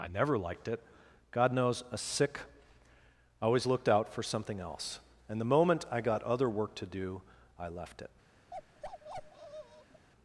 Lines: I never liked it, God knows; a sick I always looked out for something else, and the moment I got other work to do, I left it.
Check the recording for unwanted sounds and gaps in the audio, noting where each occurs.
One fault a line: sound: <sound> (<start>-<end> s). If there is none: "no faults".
sound: bark (8.5-10.1 s)